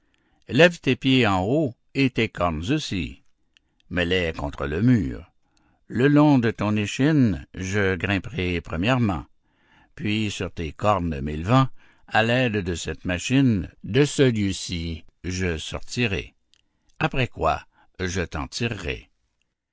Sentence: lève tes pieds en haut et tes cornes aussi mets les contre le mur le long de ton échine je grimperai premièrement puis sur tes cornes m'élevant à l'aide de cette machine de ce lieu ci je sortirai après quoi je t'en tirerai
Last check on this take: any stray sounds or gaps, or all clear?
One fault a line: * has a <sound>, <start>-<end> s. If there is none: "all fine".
all fine